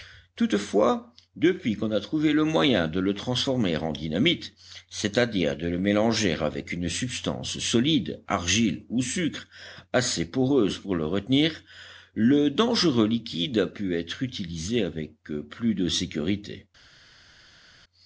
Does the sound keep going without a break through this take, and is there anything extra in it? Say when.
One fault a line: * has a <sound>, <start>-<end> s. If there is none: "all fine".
all fine